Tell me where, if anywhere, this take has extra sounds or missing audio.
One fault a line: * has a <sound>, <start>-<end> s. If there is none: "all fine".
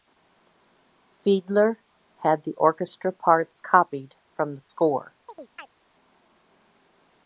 * has a chirp, 5.3-5.8 s